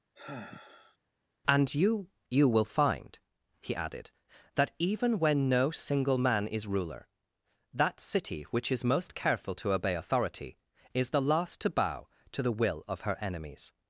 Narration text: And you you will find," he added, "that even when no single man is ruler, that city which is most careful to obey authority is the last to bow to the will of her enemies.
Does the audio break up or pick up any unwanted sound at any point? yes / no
yes